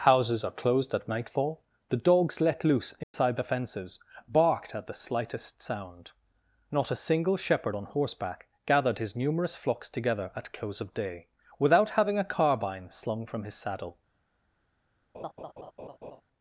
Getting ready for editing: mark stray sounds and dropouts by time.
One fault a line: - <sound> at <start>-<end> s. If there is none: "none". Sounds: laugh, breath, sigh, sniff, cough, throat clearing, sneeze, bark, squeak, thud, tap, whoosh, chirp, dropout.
- dropout at 3.0-3.1 s
- laugh at 15.1-16.2 s